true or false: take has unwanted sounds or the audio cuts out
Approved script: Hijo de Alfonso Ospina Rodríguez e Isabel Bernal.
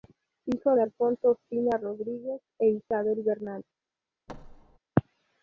true